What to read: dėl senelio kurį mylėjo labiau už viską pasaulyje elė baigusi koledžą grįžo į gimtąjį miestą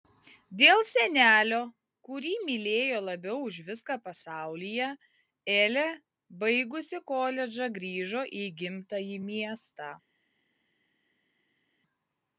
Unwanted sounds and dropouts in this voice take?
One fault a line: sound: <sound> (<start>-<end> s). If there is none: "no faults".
no faults